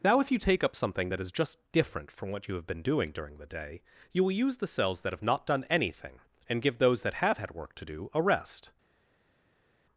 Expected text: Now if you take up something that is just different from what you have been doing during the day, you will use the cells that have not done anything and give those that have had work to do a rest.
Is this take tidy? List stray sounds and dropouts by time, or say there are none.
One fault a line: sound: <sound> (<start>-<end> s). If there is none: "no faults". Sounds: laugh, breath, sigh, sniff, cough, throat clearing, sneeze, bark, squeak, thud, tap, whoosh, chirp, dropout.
no faults